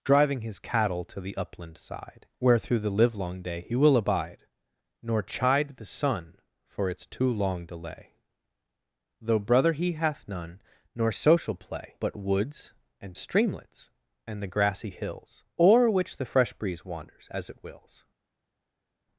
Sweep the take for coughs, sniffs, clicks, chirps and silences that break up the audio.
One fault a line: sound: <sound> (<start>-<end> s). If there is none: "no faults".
no faults